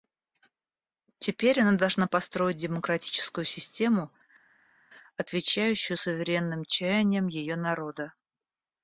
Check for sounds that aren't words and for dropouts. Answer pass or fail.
pass